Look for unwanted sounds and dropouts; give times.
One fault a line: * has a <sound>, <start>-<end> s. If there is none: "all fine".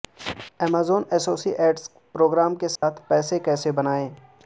* has a dropout, 2.8-2.8 s